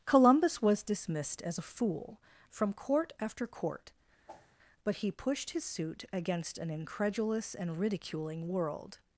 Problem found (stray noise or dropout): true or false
true